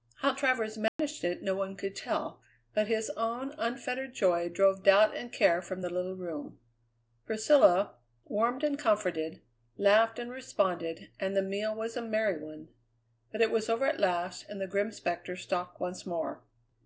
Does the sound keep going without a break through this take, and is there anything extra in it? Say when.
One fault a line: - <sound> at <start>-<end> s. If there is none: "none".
- dropout at 0.9-1.0 s